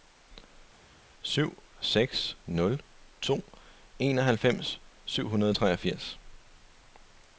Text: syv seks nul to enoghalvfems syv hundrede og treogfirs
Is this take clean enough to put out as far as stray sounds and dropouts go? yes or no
yes